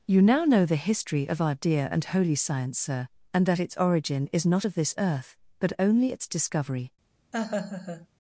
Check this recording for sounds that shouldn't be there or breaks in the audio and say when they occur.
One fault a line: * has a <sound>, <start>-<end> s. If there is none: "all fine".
* has a laugh, 7.3-8.1 s